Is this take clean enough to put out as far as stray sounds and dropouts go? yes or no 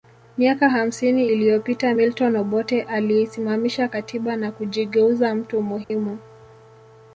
no